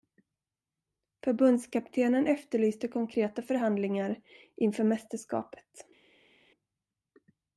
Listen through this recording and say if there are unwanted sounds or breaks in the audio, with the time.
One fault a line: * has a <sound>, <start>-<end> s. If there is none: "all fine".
all fine